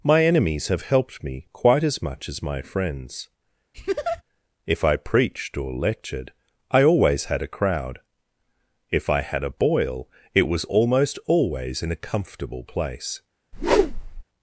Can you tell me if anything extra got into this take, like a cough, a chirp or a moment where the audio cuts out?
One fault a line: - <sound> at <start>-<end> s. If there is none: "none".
- laugh at 3.7-4.2 s
- whoosh at 13.5-14.2 s